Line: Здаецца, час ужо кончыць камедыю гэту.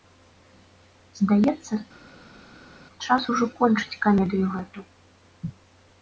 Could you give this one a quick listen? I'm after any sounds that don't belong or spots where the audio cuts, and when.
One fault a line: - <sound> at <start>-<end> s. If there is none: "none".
none